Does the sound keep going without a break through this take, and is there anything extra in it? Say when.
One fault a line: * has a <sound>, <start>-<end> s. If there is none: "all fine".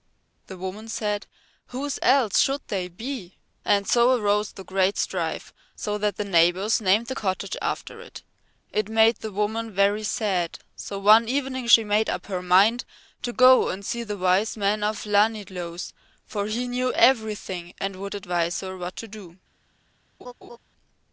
* has a laugh, 20.2-20.6 s